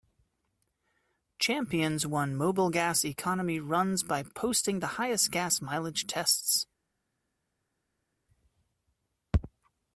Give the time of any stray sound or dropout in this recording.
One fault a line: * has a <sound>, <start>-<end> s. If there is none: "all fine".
all fine